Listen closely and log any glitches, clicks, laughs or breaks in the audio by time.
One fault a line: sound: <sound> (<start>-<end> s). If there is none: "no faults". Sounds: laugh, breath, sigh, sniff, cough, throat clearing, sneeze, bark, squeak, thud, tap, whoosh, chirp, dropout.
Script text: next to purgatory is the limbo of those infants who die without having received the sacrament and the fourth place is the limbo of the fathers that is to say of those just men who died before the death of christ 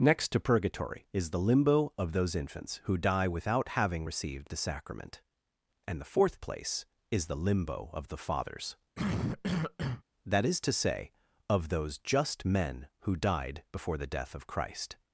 sound: cough (8.9-10.0 s)